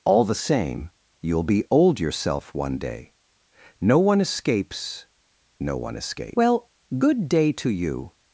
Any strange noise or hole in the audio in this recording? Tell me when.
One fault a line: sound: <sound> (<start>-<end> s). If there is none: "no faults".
no faults